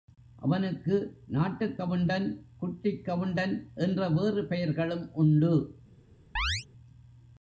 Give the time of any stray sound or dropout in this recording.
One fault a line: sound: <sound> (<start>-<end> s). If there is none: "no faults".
sound: chirp (6.4-6.7 s)